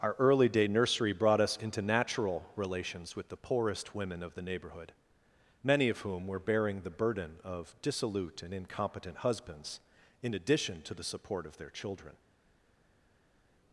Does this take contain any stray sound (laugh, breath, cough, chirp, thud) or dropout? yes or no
no